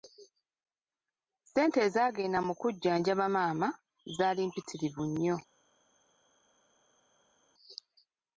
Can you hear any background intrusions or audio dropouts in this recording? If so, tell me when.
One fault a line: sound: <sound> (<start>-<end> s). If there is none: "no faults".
no faults